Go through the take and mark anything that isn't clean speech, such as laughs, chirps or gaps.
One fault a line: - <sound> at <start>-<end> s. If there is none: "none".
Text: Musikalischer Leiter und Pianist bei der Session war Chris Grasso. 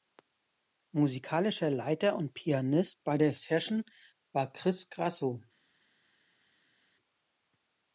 none